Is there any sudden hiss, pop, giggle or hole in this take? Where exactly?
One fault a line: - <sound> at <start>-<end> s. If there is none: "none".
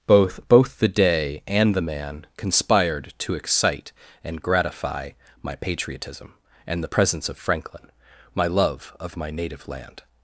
none